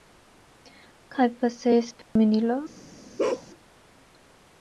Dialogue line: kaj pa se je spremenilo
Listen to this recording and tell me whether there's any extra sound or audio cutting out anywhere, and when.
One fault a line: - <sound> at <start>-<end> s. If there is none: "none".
- dropout at 2.0-2.2 s
- bark at 3.2-3.5 s